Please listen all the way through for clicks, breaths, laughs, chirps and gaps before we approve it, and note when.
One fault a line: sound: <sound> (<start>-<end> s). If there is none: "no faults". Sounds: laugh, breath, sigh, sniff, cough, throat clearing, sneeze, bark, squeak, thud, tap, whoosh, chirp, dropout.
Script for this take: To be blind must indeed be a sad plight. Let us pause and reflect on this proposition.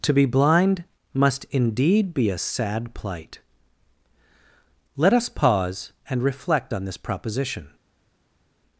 no faults